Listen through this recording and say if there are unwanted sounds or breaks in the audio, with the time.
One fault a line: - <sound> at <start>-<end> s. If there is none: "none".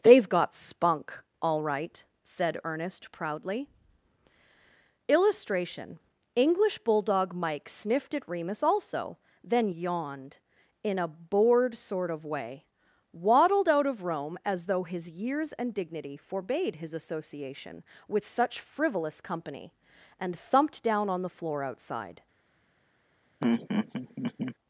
- laugh at 23.4-24.6 s